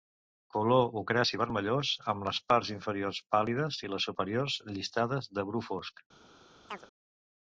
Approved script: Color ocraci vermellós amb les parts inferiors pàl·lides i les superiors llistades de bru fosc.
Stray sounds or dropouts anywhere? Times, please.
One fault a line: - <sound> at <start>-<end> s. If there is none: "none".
- chirp at 6.7-6.9 s